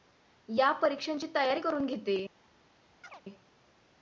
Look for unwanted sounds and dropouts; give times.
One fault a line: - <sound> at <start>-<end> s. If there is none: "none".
- chirp at 3.0-3.2 s